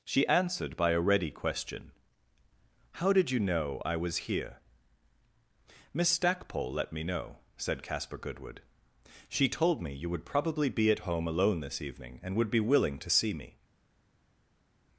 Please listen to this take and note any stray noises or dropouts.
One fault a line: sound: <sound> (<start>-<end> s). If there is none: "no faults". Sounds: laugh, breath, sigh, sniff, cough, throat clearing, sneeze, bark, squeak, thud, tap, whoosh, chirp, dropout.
no faults